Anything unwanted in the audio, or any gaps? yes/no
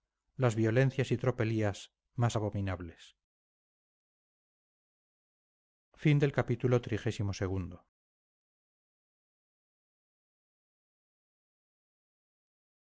no